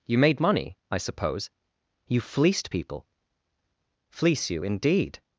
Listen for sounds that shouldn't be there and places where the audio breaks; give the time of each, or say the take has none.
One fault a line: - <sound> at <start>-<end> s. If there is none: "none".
none